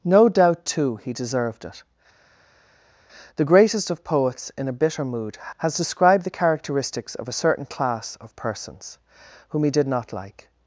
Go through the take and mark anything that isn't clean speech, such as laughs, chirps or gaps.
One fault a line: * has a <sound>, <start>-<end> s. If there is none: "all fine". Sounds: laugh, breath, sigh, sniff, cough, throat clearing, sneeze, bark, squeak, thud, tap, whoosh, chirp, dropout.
all fine